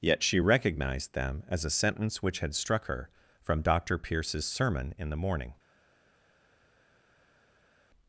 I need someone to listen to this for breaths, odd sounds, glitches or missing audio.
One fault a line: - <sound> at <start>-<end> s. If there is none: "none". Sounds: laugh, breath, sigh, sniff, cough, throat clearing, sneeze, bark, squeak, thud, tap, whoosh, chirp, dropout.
none